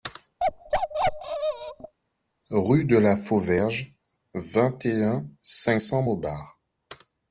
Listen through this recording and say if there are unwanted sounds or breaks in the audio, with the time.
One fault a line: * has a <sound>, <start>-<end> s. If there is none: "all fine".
* has a bark, 0.4-1.9 s